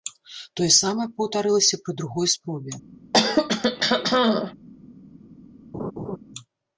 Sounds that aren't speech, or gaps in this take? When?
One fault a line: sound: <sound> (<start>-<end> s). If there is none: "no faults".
sound: throat clearing (3.1-4.5 s)
sound: laugh (5.7-6.2 s)